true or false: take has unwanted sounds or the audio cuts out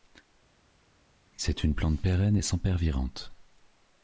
false